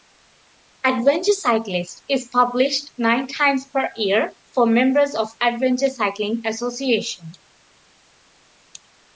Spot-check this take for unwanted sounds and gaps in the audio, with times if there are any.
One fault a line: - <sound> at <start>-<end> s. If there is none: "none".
none